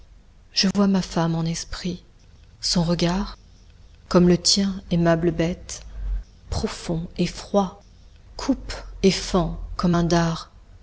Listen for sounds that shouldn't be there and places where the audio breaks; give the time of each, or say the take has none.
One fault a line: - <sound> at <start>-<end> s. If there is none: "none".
- dropout at 0.7-0.7 s